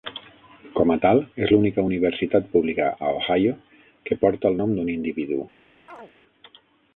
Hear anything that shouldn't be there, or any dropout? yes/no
yes